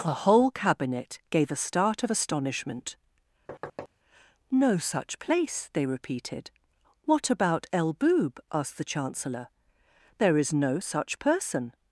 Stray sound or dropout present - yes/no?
yes